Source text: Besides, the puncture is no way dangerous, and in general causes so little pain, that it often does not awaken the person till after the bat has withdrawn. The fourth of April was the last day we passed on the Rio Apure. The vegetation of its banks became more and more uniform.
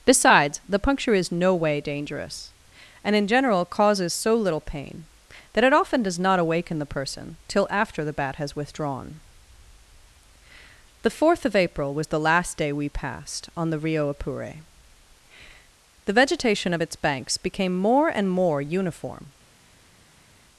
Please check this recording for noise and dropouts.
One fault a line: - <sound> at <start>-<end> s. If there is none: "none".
none